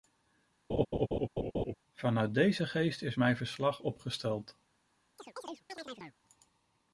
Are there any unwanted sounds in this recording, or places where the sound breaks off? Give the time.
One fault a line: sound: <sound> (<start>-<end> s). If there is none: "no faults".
sound: laugh (0.7-1.7 s)
sound: chirp (5.2-6.2 s)